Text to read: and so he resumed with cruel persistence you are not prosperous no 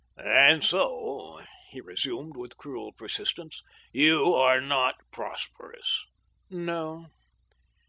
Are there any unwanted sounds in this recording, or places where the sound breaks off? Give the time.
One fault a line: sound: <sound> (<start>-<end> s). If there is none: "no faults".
no faults